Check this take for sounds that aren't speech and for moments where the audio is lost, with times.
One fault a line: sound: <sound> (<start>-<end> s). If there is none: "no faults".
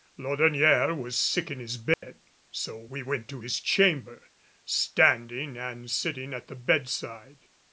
sound: dropout (1.9-2.0 s)